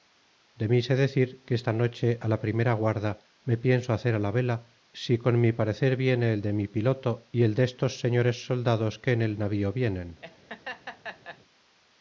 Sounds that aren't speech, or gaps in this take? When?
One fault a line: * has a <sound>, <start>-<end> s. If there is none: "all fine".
* has a laugh, 10.2-11.4 s